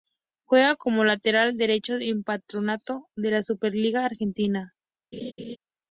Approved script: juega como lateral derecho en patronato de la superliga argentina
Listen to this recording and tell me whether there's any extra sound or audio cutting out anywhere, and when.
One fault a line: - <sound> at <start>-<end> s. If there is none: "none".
- laugh at 5.1-5.6 s